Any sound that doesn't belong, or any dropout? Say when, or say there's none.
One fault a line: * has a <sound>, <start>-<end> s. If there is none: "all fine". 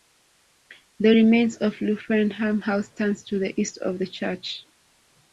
all fine